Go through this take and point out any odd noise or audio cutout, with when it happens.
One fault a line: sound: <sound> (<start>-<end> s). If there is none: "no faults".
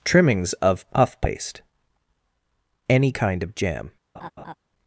sound: laugh (4.1-4.5 s)